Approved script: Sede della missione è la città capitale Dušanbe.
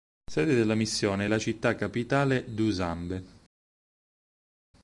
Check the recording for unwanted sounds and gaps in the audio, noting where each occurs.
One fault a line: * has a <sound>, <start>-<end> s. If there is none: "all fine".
all fine